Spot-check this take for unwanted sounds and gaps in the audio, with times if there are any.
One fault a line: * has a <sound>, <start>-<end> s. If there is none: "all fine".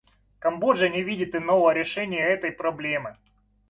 all fine